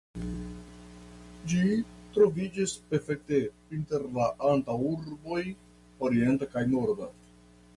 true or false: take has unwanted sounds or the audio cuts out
false